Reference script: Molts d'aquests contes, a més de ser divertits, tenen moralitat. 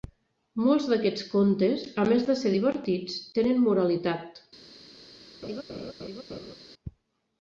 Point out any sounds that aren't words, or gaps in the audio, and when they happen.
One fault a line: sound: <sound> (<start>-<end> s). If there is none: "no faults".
sound: laugh (5.4-6.5 s)